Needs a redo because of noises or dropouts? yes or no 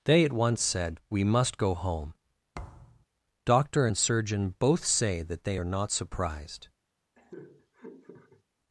yes